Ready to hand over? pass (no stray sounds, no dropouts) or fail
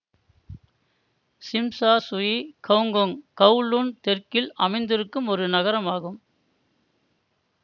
pass